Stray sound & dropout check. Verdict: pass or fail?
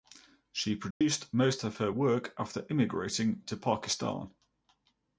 fail